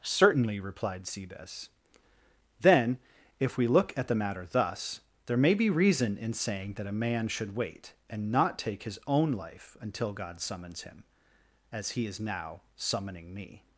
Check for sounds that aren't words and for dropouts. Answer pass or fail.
pass